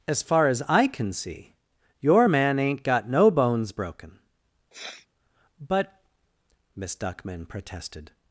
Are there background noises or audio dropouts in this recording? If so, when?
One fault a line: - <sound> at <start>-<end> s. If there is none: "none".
- sniff at 4.7-5.1 s